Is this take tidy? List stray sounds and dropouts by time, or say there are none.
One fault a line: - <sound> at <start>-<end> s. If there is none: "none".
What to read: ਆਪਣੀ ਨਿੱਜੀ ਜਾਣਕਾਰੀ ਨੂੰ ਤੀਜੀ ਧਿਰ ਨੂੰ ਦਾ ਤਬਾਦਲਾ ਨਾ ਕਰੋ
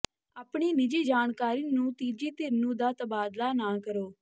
none